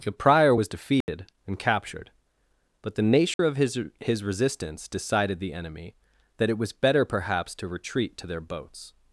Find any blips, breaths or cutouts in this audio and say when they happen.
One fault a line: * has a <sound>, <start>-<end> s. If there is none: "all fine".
* has a dropout, 1.0-1.1 s
* has a dropout, 3.3-3.4 s